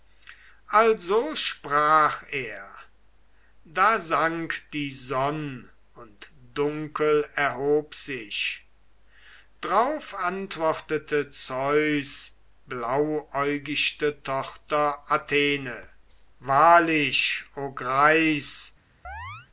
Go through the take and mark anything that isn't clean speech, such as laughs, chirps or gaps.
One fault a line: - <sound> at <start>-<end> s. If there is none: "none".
- chirp at 19.0-19.5 s